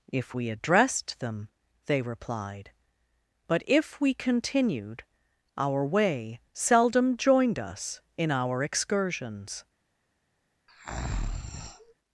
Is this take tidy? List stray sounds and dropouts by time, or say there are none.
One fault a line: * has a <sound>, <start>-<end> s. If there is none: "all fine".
* has a breath, 10.7-11.9 s